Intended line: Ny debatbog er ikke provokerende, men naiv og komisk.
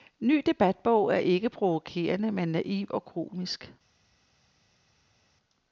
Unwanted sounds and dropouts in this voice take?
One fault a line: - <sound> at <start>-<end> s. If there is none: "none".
none